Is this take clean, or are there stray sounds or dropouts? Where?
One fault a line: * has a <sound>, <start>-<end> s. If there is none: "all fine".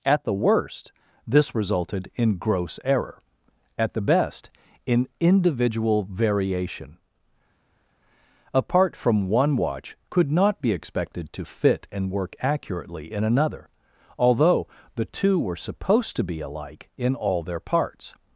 all fine